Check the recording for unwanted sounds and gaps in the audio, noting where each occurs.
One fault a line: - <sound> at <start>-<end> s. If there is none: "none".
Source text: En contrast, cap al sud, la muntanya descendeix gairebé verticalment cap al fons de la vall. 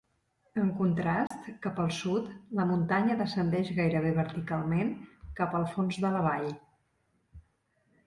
- dropout at 1.3-1.3 s